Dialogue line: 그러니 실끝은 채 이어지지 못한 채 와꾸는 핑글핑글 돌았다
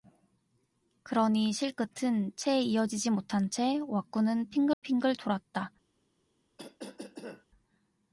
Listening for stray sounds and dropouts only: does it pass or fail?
fail